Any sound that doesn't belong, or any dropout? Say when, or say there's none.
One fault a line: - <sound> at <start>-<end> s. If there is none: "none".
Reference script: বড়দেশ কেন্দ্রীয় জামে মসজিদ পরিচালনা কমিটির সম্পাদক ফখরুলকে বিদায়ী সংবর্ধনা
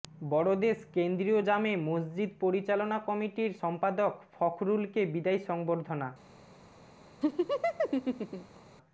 - laugh at 7.2-8.6 s